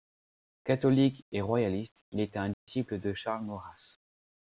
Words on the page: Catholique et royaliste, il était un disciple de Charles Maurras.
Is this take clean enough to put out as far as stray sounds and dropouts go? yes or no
no